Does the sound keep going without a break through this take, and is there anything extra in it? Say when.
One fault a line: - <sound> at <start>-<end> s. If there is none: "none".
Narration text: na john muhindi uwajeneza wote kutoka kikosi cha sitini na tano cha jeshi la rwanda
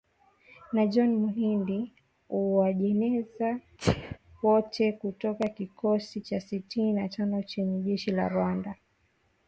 - sneeze at 3.8-4.2 s